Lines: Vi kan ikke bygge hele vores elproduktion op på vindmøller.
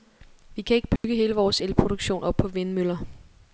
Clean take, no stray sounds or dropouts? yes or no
no